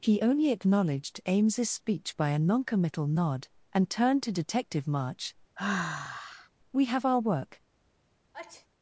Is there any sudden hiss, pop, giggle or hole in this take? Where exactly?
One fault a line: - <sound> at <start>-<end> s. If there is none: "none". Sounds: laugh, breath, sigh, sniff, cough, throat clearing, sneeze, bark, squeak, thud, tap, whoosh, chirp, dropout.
- sigh at 5.6-6.5 s
- sneeze at 8.3-8.7 s